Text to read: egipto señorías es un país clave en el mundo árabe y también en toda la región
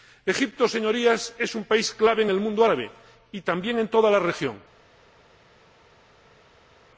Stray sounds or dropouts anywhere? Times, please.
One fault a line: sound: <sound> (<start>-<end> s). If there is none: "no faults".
no faults